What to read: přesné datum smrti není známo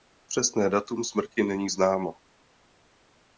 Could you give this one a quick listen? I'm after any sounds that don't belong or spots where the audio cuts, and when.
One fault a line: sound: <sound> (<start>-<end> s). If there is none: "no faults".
no faults